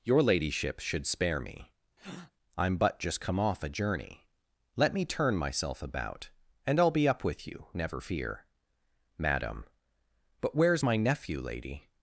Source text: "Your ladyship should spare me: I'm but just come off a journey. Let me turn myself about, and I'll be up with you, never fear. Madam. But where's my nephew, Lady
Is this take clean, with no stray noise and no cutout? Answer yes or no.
no